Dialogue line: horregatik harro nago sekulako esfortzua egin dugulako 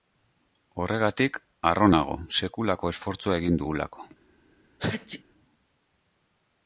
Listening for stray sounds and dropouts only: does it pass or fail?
fail